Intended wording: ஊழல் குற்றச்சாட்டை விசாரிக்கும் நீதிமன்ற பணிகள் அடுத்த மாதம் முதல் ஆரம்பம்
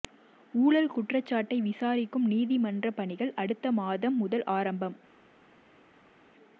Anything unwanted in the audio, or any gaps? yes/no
no